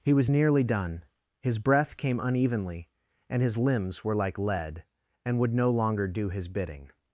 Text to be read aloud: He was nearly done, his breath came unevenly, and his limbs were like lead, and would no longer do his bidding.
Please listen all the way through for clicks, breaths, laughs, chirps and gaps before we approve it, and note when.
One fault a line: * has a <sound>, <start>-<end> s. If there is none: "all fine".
all fine